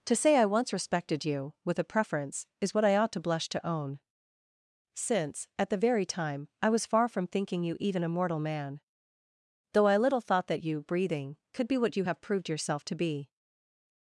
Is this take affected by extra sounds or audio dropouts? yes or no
no